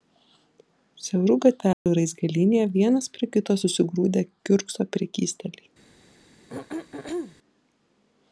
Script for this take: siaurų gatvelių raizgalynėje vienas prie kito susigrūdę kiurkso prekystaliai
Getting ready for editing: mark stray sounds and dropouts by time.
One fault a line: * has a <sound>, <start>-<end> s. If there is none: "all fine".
* has a dropout, 1.7-1.9 s
* has a throat clearing, 6.5-7.4 s